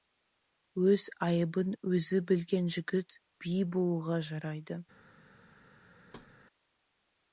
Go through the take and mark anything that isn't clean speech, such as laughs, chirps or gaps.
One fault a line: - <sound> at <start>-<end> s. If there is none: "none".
- thud at 6.1-6.3 s